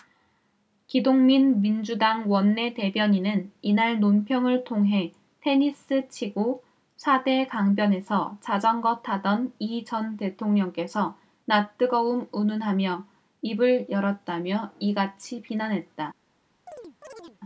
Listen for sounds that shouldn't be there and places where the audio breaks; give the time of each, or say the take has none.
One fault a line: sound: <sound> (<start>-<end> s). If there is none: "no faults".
sound: chirp (16.7-17.4 s)